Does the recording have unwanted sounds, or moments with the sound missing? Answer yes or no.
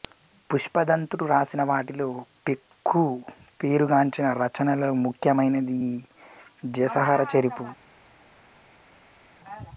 no